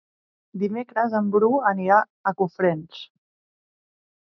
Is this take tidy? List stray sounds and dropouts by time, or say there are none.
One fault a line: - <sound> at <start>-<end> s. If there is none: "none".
none